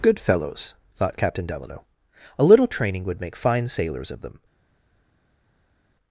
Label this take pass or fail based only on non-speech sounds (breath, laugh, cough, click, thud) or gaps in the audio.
pass